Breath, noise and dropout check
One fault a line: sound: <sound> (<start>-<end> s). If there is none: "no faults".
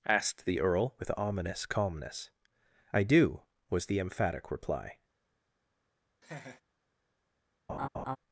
sound: laugh (6.2-6.6 s)
sound: laugh (7.7-8.2 s)